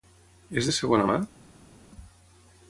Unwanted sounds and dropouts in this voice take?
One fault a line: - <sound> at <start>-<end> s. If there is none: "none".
none